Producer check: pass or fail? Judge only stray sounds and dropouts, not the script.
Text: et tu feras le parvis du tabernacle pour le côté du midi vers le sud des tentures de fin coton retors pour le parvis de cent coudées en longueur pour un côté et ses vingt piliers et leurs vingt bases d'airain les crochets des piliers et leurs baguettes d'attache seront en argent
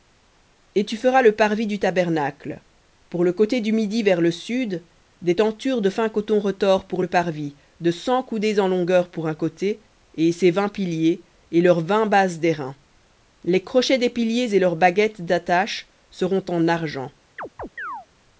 fail